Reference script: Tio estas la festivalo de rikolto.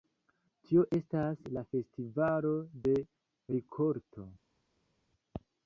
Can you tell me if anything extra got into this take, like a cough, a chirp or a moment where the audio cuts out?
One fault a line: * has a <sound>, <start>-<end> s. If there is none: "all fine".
all fine